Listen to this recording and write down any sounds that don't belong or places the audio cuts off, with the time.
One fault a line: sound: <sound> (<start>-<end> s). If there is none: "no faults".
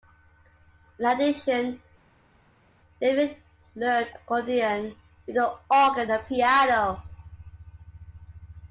no faults